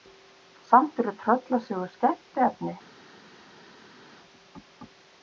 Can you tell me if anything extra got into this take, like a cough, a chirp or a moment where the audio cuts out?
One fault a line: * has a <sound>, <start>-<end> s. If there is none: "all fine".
all fine